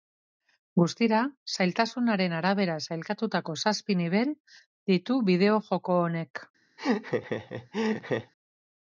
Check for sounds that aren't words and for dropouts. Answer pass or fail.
fail